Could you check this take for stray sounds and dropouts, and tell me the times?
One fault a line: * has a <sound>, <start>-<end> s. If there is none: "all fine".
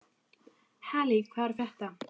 all fine